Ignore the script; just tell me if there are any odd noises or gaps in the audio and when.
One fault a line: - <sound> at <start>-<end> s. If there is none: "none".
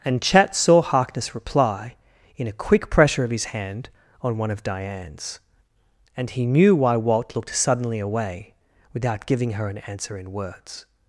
none